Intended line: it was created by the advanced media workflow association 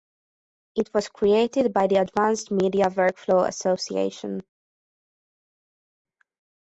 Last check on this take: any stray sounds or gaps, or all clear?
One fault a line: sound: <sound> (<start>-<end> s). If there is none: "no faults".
no faults